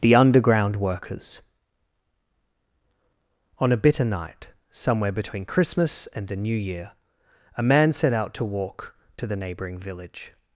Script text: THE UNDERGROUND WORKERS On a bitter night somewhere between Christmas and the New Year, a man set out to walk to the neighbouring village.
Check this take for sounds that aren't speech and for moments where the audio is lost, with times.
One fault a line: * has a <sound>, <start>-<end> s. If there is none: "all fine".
all fine